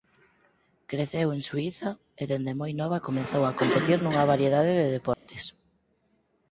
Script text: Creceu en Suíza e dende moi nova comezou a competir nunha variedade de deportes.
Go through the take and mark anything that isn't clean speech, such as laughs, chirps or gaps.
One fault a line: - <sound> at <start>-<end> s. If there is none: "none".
- dropout at 5.1-5.3 s